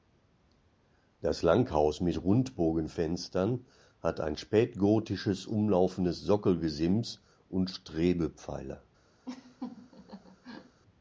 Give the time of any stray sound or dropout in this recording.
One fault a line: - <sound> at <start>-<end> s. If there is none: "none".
- laugh at 9.2-10.8 s